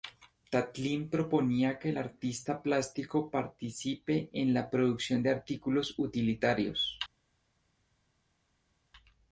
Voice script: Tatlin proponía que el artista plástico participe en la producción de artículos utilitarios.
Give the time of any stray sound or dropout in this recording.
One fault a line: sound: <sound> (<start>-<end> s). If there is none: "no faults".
no faults